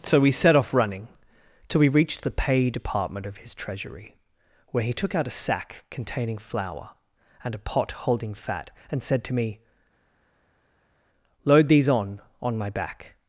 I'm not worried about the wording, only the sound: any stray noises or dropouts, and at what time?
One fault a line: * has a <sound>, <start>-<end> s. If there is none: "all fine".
all fine